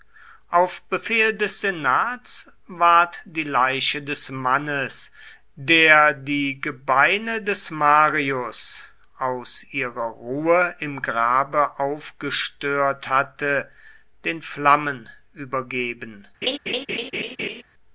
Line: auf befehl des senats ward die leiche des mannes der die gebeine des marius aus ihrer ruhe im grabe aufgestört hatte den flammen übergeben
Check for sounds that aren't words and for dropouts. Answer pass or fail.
fail